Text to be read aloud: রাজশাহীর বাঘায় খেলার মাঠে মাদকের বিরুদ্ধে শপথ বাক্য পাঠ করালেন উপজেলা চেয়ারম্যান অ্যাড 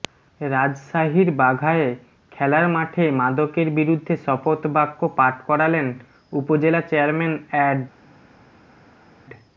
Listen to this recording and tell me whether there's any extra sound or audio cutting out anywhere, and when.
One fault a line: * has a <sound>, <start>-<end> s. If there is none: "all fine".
all fine